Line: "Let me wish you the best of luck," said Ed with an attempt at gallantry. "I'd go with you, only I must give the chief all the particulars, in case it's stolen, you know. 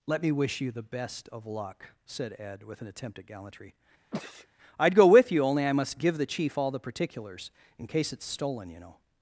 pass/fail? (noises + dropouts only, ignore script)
fail